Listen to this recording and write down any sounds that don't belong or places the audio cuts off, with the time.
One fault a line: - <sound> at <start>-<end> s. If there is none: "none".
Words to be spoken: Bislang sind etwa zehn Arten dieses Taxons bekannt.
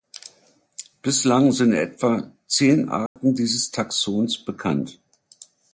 - dropout at 3.1-3.2 s